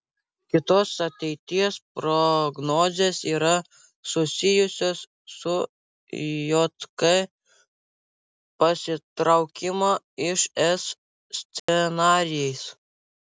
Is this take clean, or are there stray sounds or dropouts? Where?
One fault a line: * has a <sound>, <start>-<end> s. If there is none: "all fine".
* has a dropout, 11.6-11.7 s